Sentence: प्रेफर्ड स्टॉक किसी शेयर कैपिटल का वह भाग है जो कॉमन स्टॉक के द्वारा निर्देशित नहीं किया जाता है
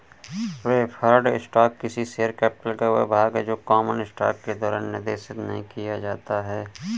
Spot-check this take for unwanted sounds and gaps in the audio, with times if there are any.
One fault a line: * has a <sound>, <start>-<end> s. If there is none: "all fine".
all fine